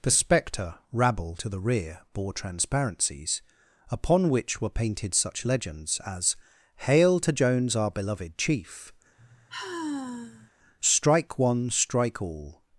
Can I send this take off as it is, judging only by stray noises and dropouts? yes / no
no